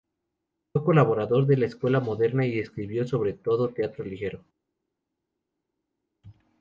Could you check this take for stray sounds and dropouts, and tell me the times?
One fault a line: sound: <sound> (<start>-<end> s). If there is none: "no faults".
no faults